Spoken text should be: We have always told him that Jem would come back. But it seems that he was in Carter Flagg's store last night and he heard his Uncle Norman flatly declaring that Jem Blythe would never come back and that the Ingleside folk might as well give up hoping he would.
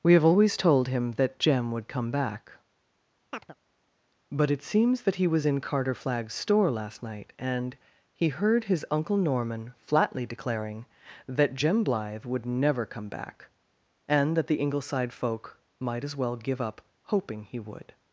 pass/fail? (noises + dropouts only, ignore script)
fail